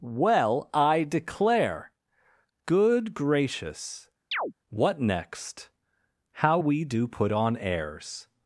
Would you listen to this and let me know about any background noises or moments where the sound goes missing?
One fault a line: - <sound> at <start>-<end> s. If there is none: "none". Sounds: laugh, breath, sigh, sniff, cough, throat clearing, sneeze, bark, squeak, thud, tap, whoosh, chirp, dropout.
- chirp at 4.3-4.5 s